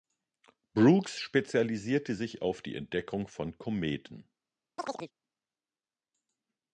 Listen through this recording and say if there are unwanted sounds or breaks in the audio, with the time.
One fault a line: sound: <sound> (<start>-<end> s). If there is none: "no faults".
sound: chirp (4.8-5.1 s)